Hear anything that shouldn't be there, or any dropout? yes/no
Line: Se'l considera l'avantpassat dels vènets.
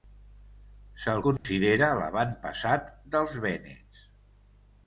yes